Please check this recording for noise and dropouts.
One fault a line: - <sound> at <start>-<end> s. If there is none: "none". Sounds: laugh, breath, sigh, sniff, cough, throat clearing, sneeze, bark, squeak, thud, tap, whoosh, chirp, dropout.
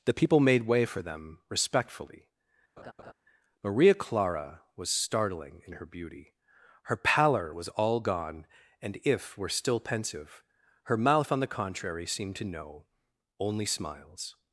- laugh at 2.8-3.1 s